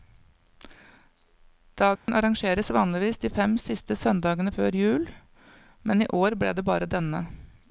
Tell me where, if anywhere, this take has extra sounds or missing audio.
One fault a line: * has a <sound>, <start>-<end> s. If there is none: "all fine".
* has a dropout, 2.0-2.1 s